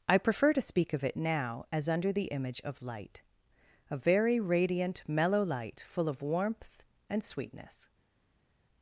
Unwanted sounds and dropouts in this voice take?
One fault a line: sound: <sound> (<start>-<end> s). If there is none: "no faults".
no faults